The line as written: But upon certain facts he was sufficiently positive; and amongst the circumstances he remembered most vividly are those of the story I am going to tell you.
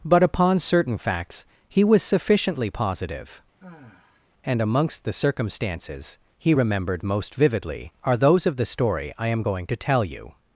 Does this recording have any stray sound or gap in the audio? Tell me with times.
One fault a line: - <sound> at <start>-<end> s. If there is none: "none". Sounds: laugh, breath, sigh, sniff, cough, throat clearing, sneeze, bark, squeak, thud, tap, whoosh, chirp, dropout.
- sigh at 3.6-4.3 s